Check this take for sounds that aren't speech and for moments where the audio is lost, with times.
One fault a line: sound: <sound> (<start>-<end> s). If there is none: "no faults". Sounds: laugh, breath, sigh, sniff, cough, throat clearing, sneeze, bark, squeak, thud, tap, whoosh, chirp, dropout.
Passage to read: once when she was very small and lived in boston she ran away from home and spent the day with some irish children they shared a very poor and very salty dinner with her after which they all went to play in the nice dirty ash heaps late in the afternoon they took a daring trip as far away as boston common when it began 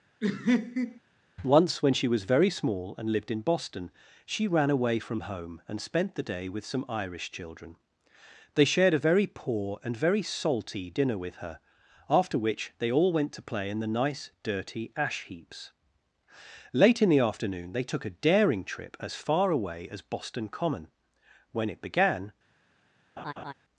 sound: laugh (0.2-1.0 s)
sound: laugh (23.2-23.5 s)